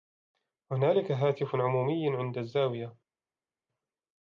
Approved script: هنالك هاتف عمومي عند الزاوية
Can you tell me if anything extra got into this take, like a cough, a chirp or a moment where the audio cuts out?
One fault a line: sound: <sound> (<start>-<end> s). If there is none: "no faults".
no faults